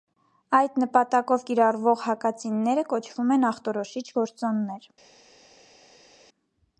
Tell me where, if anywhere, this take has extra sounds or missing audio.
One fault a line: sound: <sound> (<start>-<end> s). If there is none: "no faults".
no faults